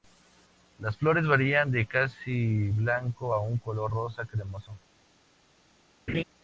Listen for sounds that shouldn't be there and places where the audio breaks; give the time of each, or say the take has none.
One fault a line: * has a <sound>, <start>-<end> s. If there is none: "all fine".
* has a laugh, 6.1-6.2 s